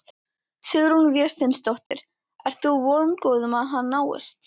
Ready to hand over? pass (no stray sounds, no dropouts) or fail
fail